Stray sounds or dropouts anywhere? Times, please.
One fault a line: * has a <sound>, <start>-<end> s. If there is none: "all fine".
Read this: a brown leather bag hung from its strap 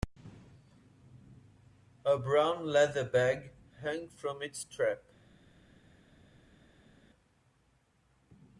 all fine